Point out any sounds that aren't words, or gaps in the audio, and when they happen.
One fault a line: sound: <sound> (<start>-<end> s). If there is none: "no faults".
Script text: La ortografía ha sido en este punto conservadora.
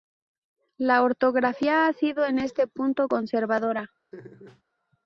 sound: laugh (4.1-4.6 s)